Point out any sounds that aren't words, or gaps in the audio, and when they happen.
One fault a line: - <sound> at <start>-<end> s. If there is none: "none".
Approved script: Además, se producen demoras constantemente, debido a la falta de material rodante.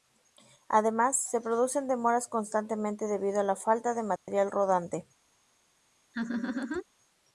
- dropout at 4.2-4.3 s
- laugh at 6.1-6.8 s